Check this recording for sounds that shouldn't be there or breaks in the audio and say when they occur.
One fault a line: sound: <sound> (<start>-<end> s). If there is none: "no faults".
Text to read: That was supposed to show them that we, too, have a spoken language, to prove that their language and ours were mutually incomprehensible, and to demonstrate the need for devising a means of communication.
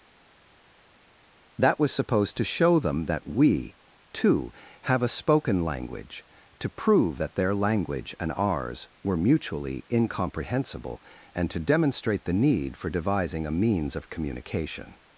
no faults